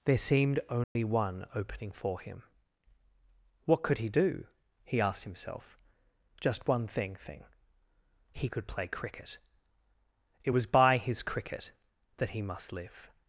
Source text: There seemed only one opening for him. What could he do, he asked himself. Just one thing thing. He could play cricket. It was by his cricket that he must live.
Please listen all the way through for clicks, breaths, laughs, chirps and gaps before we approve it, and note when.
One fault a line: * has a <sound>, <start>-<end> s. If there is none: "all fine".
* has a dropout, 0.8-1.0 s